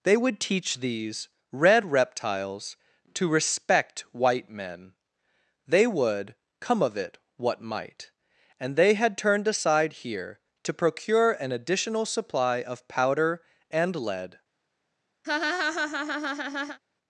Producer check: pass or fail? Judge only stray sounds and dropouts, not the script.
fail